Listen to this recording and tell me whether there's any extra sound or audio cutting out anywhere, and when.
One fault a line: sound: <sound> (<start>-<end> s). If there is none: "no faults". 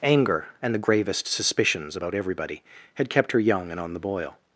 no faults